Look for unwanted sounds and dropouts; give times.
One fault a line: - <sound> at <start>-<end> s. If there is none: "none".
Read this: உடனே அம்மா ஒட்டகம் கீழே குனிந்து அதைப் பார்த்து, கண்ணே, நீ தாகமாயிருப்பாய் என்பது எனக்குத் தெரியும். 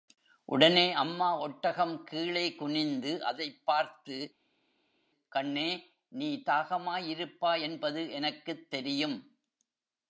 none